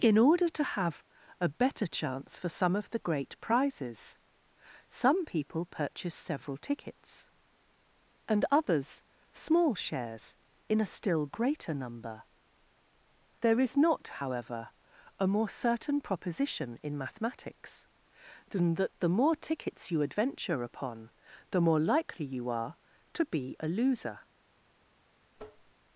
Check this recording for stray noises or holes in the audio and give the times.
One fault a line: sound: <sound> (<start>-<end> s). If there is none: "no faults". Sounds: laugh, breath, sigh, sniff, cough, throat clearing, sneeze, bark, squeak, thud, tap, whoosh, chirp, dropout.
sound: tap (25.4-25.7 s)